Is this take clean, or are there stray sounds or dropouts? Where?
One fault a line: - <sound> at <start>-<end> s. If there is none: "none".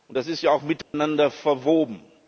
- dropout at 0.8-0.9 s